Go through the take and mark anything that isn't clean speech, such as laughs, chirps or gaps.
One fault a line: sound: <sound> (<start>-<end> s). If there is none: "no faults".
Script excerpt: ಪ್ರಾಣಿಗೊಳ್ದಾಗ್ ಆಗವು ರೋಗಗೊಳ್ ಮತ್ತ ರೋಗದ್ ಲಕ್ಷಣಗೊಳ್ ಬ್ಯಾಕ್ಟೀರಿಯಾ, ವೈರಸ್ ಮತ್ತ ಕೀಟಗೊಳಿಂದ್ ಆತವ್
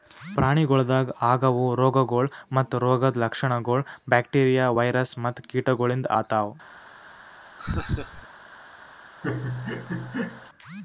sound: laugh (7.6-8.3 s)
sound: laugh (9.2-10.5 s)